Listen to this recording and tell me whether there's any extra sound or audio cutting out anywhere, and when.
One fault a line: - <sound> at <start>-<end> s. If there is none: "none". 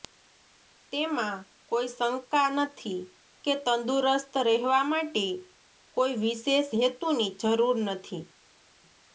none